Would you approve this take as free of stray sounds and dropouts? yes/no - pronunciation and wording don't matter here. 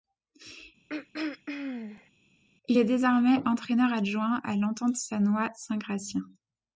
no